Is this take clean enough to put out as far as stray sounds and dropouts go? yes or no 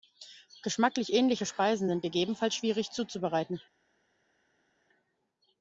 yes